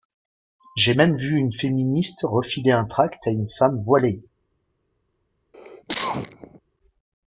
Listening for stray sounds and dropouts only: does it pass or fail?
fail